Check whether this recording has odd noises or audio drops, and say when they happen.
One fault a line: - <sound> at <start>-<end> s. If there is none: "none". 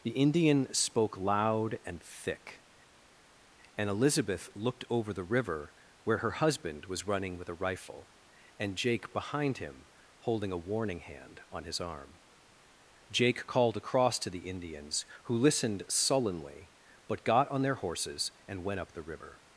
none